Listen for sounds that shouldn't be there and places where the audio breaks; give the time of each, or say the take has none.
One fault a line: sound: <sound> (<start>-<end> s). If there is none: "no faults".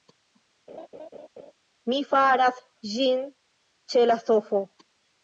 sound: laugh (0.7-1.5 s)